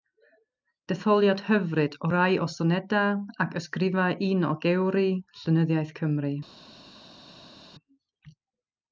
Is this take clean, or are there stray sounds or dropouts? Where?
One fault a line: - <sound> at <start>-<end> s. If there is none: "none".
none